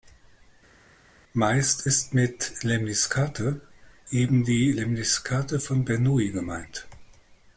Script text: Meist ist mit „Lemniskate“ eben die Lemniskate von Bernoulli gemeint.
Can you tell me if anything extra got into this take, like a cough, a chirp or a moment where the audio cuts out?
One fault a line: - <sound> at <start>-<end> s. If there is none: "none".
none